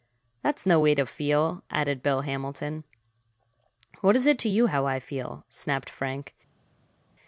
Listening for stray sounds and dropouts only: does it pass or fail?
pass